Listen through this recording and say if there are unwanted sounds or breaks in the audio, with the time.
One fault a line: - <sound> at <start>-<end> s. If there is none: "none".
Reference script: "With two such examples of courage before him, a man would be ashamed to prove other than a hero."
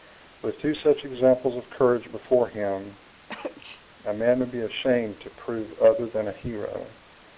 - sneeze at 3.3-3.9 s